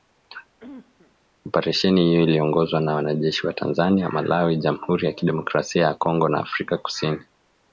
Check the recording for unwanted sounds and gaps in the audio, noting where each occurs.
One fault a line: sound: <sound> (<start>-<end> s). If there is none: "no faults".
sound: cough (0.6-1.2 s)